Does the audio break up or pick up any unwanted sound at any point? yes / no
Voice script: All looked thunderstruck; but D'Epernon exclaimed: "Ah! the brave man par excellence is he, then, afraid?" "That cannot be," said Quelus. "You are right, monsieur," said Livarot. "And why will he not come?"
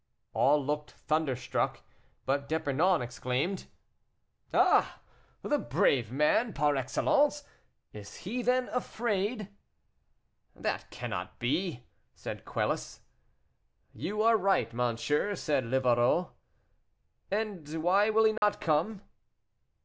yes